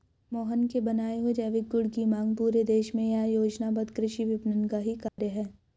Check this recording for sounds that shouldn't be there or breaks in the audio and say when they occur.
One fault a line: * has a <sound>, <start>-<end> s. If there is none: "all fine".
* has a dropout, 5.1-5.2 s